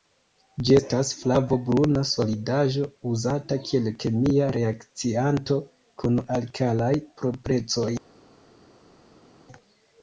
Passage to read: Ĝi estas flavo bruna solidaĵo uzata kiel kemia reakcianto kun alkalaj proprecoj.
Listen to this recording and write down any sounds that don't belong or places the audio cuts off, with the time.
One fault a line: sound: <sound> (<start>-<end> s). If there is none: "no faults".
no faults